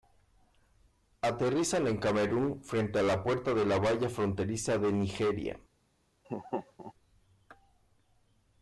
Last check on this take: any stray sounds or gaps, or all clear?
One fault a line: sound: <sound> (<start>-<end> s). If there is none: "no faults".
sound: laugh (6.2-6.9 s)